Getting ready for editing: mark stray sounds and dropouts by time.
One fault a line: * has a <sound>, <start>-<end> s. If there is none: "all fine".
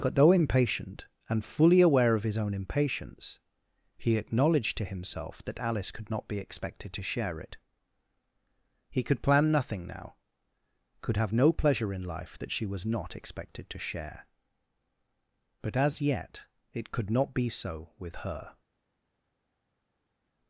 all fine